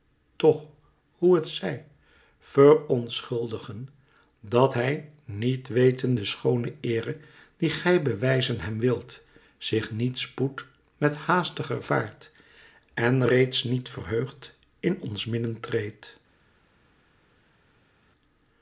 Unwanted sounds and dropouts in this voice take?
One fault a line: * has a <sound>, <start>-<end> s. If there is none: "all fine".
all fine